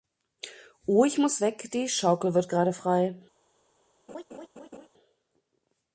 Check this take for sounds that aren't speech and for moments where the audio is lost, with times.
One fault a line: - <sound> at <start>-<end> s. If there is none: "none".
- laugh at 4.1-4.9 s